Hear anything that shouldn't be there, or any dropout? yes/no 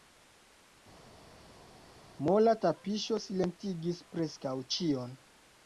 no